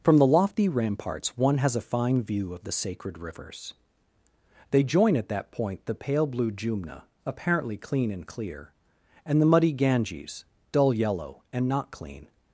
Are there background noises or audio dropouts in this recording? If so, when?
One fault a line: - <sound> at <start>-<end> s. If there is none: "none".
none